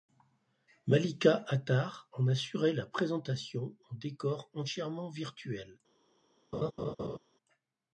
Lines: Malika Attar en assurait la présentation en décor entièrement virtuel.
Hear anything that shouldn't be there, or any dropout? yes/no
yes